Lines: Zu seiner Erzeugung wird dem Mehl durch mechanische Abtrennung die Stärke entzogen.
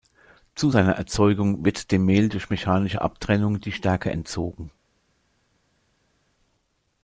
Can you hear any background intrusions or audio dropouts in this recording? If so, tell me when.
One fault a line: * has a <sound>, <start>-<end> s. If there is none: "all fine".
all fine